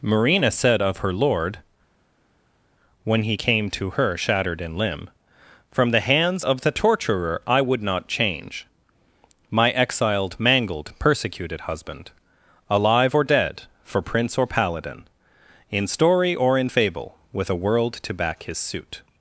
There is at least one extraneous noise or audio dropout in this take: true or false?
false